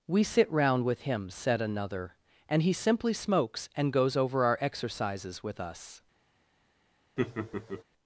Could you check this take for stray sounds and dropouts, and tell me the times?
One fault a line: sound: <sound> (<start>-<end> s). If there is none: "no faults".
sound: laugh (7.2-7.8 s)